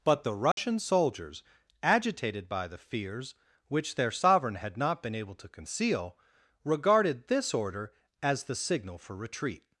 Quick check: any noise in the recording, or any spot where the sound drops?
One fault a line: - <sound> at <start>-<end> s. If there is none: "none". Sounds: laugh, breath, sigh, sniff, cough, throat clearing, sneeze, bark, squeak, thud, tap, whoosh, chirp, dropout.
- dropout at 0.5-0.6 s